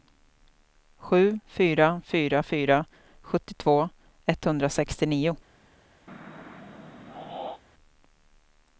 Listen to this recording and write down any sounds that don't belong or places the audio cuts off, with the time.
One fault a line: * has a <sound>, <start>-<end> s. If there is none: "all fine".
* has a throat clearing, 6.1-7.6 s